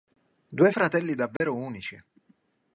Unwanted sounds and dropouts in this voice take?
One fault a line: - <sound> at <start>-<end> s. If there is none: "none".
- dropout at 1.4-1.4 s